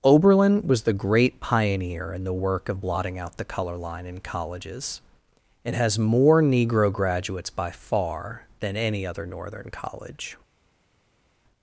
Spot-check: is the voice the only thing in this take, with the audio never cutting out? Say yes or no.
yes